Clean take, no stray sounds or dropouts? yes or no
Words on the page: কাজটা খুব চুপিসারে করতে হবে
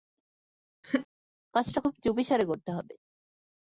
no